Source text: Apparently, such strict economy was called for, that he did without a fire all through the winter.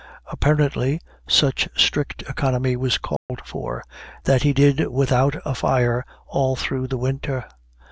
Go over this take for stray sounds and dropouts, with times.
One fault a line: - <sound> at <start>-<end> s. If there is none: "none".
- dropout at 3.2-3.3 s